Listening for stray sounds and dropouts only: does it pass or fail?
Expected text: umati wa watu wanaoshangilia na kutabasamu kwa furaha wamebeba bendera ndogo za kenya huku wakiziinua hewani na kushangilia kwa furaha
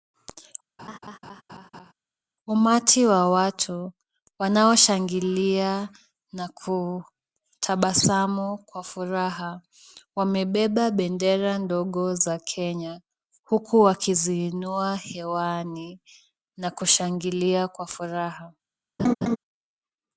fail